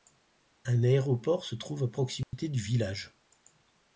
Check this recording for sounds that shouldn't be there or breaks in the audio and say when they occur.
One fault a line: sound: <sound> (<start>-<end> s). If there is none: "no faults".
sound: dropout (2.2-2.3 s)